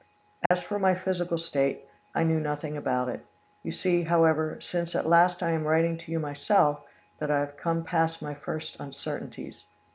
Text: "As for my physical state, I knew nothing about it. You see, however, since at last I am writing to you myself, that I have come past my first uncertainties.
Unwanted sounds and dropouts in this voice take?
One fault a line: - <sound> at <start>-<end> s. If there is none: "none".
- dropout at 0.5-0.5 s